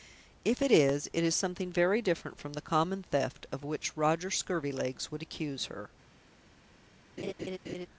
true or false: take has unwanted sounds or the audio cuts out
true